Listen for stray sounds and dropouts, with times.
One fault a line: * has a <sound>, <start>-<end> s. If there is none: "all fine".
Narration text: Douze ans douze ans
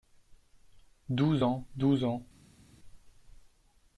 all fine